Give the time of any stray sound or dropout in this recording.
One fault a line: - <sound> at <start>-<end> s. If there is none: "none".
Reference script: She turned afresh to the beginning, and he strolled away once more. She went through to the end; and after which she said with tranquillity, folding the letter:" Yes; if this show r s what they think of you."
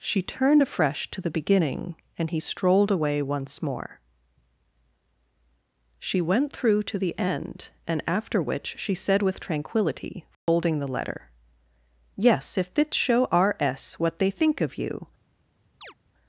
- dropout at 10.3-10.5 s
- chirp at 15.8-15.9 s